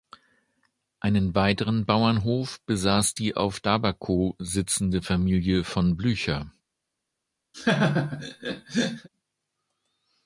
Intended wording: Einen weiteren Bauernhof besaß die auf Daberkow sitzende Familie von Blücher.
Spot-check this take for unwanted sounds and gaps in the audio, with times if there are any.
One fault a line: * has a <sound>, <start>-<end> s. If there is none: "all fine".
* has a laugh, 7.5-9.1 s